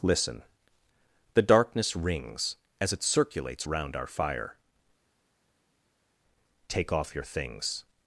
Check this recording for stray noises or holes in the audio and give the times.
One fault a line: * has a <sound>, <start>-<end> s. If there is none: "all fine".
all fine